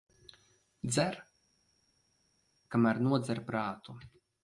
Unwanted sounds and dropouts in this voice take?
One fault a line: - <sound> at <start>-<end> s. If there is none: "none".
none